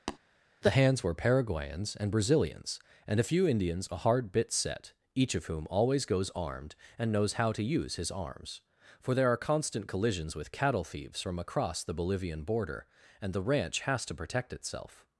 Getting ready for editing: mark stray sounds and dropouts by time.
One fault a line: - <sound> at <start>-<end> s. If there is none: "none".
- tap at 0.1-0.2 s